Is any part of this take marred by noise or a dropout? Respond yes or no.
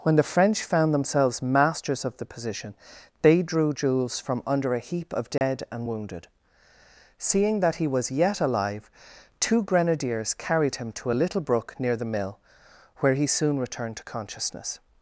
yes